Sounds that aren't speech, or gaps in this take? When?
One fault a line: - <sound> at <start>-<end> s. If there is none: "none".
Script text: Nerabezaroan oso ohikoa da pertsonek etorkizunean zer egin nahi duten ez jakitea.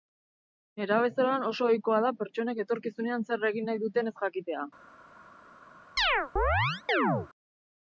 - chirp at 6.0-7.3 s